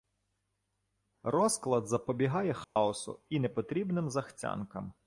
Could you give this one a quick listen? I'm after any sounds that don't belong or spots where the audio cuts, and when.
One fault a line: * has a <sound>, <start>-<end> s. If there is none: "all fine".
* has a dropout, 2.6-2.8 s